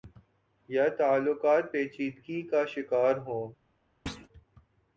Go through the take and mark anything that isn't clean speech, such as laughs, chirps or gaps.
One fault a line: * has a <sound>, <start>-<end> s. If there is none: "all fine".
* has a thud, 4.1-4.3 s